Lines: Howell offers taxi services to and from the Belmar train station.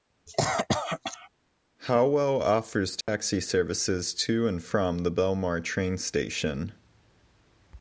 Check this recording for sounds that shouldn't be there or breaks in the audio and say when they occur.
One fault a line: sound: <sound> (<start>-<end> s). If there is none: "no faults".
sound: cough (0.3-1.3 s)
sound: dropout (3.0-3.1 s)